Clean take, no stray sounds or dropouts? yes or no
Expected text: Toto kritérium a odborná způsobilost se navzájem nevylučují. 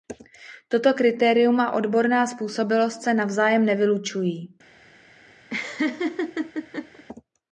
no